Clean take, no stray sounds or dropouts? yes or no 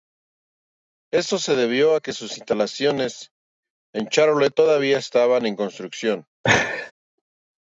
no